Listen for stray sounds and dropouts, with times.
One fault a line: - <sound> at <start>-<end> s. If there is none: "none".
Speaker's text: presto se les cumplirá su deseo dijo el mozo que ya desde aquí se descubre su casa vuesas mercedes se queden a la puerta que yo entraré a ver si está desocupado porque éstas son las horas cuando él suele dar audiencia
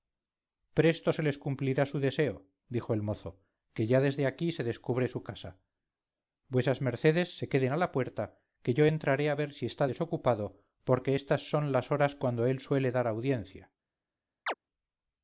- chirp at 14.5-14.5 s